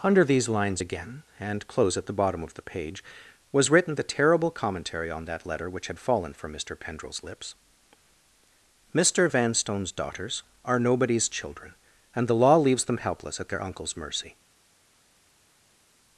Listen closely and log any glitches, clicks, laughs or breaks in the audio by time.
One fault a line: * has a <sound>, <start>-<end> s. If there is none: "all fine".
all fine